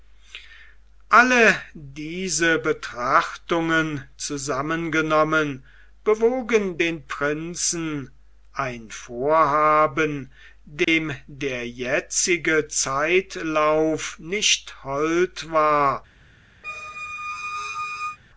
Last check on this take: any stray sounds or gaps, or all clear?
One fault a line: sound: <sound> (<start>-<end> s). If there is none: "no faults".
sound: dropout (10.8-10.9 s)
sound: squeak (16.6-18.2 s)